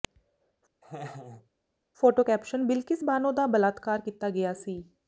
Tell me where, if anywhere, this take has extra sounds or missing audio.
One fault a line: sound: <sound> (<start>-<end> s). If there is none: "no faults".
sound: laugh (0.8-1.5 s)